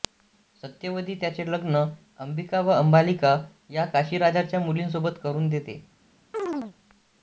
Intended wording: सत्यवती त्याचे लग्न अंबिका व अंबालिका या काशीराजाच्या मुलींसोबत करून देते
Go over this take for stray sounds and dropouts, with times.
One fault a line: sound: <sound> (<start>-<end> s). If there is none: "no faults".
sound: chirp (6.3-6.7 s)